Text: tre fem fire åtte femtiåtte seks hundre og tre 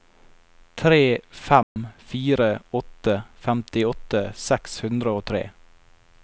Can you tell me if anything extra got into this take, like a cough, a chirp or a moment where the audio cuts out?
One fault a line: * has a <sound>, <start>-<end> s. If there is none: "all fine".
* has a dropout, 1.6-1.8 s